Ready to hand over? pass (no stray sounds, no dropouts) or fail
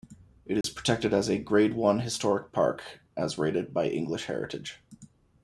fail